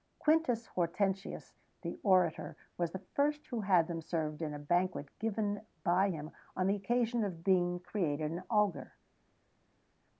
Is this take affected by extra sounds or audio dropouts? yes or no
no